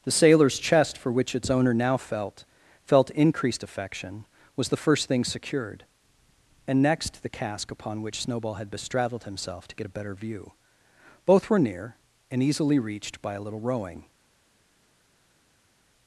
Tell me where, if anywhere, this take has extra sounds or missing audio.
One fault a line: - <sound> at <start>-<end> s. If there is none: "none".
none